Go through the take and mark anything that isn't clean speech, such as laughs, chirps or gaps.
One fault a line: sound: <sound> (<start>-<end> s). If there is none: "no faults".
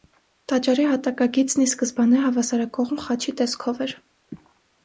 no faults